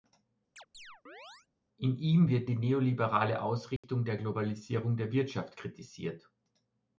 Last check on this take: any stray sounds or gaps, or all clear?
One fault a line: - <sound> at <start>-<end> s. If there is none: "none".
- chirp at 0.6-1.5 s
- dropout at 3.8-3.8 s